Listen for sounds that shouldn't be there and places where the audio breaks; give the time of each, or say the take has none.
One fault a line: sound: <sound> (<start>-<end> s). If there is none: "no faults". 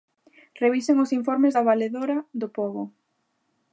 no faults